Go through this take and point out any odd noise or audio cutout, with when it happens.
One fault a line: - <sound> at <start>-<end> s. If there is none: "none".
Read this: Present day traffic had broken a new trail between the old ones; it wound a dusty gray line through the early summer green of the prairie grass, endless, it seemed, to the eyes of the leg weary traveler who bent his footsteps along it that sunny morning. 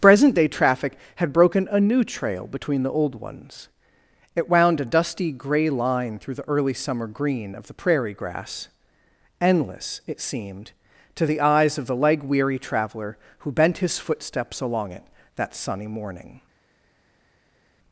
none